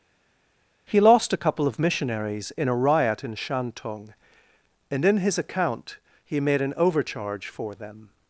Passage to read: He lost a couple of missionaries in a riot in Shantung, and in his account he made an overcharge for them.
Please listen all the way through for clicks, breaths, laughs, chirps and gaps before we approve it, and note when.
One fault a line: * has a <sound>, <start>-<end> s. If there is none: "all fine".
all fine